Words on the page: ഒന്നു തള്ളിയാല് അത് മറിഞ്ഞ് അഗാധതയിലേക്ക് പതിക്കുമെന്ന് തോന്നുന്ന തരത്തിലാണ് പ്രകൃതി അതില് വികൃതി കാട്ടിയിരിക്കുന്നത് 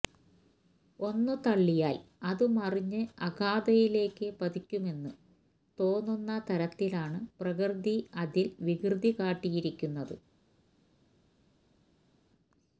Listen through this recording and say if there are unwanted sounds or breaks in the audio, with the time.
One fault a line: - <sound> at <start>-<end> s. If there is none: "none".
none